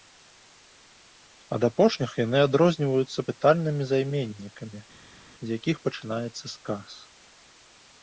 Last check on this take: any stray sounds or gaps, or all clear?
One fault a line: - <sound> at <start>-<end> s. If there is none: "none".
none